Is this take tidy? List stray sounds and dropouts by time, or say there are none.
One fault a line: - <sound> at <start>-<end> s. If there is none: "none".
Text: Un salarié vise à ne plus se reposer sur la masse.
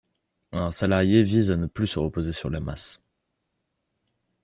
none